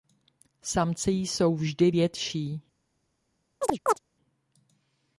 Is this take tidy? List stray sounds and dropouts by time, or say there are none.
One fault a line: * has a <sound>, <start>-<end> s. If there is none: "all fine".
* has a chirp, 3.6-4.0 s